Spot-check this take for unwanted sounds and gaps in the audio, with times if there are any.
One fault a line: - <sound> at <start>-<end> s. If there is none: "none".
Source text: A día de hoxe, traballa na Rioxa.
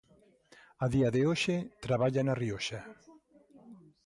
none